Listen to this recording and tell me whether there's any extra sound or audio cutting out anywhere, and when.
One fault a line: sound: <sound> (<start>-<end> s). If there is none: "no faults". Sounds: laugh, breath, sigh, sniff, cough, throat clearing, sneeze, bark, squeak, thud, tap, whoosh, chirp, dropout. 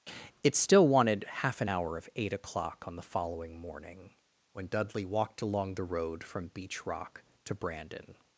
no faults